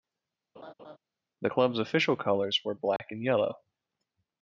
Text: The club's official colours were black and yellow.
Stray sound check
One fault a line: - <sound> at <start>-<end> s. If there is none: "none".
- laugh at 0.5-1.0 s
- dropout at 3.0-3.0 s